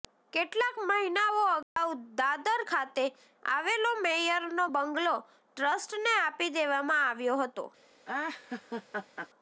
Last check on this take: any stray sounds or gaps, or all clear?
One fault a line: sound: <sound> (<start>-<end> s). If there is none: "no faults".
sound: dropout (1.6-1.8 s)
sound: laugh (8.0-9.3 s)